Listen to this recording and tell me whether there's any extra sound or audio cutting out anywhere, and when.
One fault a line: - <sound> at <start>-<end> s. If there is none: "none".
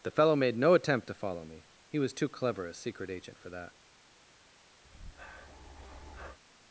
- breath at 4.8-6.4 s